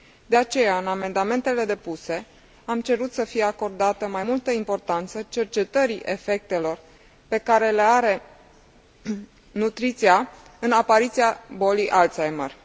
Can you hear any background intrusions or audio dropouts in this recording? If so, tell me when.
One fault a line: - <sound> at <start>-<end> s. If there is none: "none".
none